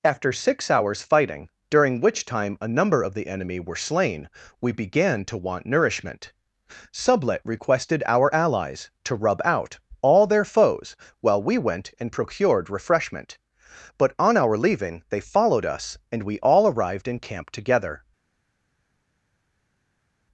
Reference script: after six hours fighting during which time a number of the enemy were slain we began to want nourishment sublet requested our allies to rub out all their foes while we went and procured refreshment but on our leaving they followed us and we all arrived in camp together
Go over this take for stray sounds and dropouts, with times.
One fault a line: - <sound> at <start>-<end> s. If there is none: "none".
none